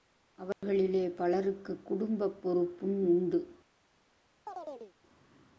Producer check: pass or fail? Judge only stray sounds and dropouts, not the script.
fail